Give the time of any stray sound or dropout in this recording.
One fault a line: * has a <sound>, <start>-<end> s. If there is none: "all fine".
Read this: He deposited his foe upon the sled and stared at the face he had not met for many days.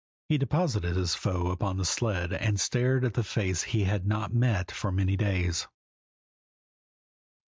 all fine